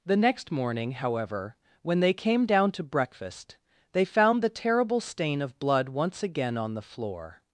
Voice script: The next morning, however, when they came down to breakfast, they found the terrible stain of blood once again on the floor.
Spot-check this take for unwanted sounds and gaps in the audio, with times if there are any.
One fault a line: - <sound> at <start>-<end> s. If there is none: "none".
none